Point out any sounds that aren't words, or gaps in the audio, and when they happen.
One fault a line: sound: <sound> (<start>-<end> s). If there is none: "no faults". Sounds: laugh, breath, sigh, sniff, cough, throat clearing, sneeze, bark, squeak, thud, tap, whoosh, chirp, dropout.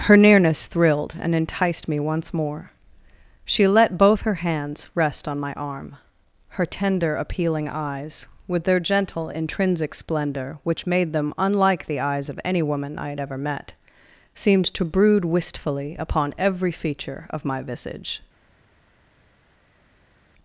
no faults